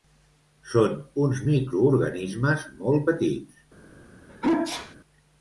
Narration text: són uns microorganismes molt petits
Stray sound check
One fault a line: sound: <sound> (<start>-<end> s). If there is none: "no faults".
sound: sneeze (4.3-5.0 s)